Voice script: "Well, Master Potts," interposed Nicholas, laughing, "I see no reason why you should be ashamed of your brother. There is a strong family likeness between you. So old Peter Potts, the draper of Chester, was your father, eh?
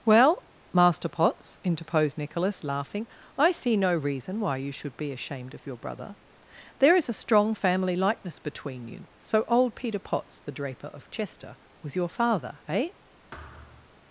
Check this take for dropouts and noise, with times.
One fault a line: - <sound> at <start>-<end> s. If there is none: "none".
- thud at 13.3-13.9 s